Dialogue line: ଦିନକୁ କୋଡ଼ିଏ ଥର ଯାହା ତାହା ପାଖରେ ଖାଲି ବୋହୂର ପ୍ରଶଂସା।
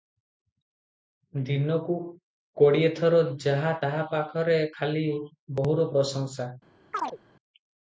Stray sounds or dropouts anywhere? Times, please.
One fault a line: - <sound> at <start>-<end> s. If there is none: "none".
- chirp at 6.9-7.2 s